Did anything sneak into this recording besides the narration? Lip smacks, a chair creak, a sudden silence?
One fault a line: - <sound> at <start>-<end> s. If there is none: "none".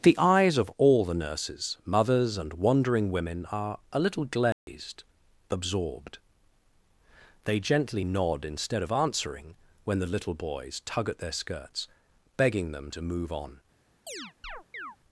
- dropout at 4.5-4.7 s
- chirp at 14.1-15.0 s